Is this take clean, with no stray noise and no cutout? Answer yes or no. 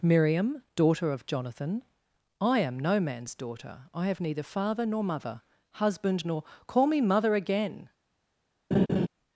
no